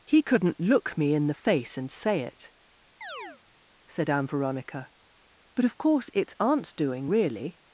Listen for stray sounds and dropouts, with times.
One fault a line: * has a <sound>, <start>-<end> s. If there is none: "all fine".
* has a chirp, 3.0-3.4 s